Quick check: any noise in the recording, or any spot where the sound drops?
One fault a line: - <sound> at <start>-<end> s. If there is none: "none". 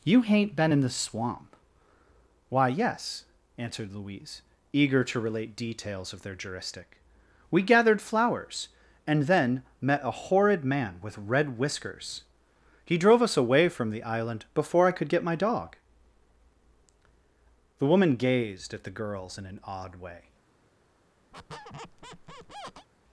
- squeak at 21.3-22.9 s